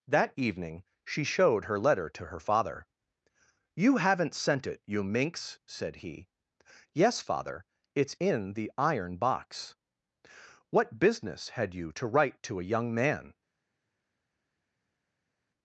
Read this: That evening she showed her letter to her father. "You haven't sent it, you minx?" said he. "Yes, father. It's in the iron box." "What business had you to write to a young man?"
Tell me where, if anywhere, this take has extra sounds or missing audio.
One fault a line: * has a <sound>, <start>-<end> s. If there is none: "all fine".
all fine